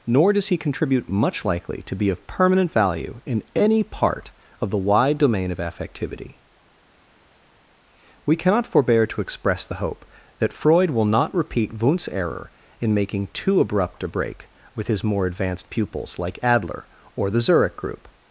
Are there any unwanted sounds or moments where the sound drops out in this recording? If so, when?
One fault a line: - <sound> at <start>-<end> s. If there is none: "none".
none